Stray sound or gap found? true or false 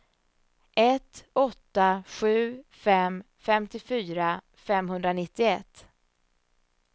false